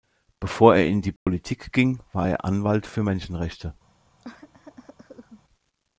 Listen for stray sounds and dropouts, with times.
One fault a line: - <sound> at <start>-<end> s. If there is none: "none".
- dropout at 1.2-1.3 s
- cough at 4.2-5.4 s